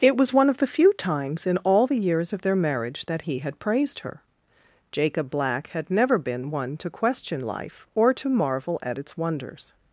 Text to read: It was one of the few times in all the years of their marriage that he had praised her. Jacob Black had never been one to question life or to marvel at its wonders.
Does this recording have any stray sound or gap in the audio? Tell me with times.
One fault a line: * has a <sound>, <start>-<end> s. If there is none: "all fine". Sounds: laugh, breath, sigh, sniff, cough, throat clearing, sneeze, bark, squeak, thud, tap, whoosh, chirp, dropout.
all fine